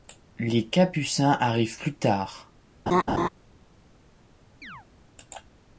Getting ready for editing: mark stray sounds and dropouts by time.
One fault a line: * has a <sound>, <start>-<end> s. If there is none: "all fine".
* has a laugh, 2.9-3.3 s
* has a chirp, 4.6-4.9 s